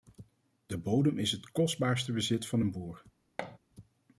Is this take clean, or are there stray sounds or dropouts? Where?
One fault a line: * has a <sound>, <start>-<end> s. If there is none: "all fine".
* has a thud, 3.4-3.6 s